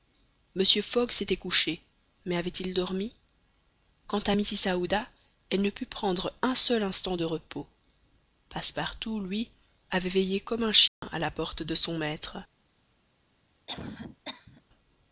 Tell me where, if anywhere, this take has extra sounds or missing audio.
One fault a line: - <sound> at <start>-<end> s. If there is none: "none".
- dropout at 10.9-11.0 s
- cough at 13.7-14.6 s